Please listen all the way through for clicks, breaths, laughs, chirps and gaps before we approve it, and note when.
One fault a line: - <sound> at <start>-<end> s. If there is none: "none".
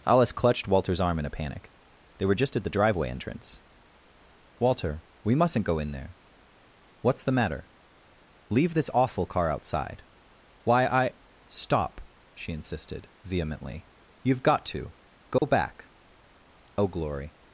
- dropout at 15.4-15.4 s